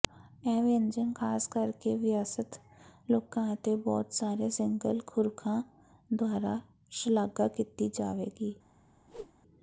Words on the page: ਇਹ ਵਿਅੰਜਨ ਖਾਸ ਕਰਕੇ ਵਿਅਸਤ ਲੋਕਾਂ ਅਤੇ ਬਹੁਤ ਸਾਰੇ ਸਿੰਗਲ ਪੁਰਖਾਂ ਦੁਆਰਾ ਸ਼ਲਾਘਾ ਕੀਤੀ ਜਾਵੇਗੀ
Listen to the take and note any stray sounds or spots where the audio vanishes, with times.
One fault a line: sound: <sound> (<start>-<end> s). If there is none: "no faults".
sound: whoosh (9.1-9.3 s)